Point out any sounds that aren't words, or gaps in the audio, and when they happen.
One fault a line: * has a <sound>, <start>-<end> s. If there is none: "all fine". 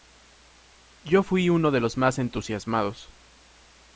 all fine